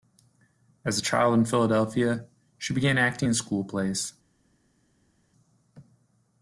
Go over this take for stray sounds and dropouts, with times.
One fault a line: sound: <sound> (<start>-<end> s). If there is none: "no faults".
no faults